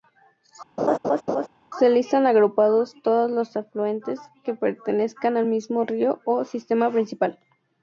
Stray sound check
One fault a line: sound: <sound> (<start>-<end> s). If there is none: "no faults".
sound: laugh (0.8-1.5 s)